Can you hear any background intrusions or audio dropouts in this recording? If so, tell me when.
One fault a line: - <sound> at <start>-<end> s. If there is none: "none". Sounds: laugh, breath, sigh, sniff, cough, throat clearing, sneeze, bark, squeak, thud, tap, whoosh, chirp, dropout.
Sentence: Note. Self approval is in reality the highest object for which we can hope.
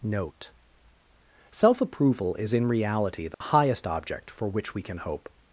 - dropout at 3.3-3.4 s